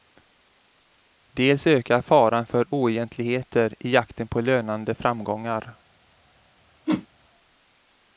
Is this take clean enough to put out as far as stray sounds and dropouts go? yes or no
no